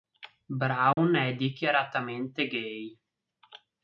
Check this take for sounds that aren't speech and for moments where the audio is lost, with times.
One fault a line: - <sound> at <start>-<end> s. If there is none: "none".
- dropout at 0.9-1.0 s